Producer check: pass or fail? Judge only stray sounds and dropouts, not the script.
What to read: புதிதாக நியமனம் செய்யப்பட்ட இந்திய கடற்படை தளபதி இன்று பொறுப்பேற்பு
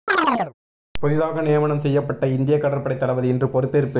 fail